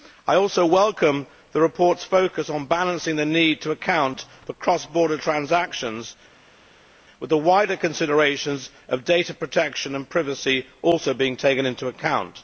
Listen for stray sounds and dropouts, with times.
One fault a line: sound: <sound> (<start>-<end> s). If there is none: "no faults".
no faults